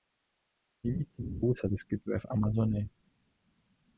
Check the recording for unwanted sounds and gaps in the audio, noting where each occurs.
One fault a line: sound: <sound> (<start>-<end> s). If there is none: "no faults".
no faults